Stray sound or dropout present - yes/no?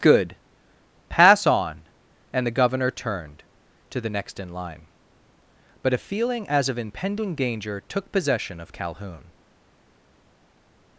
no